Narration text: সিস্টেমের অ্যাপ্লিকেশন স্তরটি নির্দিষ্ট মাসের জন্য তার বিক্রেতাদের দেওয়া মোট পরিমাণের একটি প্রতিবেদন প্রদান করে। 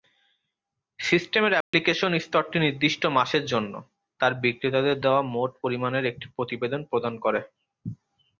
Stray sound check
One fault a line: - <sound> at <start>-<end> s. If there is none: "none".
- dropout at 1.6-1.7 s